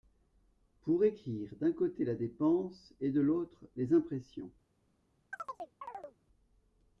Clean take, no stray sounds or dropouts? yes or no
no